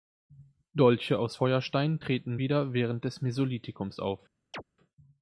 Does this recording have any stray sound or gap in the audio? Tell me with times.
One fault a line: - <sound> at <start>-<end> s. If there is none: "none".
- chirp at 4.5-4.6 s